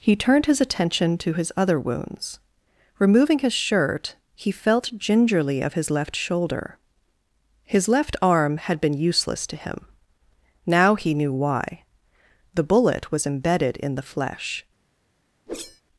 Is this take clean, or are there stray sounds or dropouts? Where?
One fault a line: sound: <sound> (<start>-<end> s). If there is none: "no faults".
sound: whoosh (15.5-15.8 s)